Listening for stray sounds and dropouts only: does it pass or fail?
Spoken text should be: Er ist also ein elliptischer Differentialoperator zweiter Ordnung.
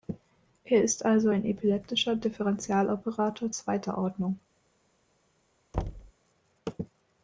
fail